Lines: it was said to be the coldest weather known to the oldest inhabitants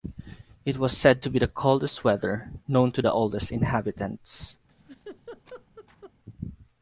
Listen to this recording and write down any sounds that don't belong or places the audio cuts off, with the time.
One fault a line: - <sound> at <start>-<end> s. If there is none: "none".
- laugh at 4.7-6.1 s